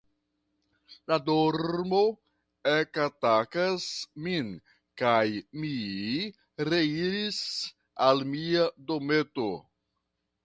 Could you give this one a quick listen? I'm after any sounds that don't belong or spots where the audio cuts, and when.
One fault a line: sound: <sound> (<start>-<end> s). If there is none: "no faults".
no faults